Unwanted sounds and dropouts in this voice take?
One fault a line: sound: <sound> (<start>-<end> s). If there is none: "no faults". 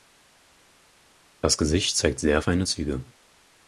no faults